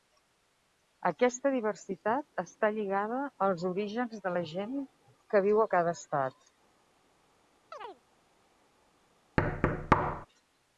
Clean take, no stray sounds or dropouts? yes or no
no